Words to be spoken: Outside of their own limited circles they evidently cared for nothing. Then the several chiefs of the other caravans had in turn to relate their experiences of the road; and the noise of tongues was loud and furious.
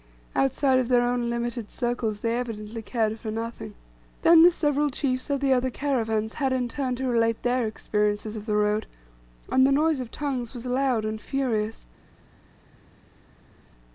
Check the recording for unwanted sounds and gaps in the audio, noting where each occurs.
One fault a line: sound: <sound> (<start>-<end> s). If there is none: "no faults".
no faults